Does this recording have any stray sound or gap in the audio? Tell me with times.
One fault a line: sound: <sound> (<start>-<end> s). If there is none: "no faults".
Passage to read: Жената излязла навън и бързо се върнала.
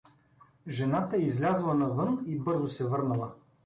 no faults